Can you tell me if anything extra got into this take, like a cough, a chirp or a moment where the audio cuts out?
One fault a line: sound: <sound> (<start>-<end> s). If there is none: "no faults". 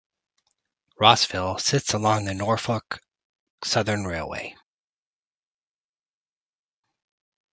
no faults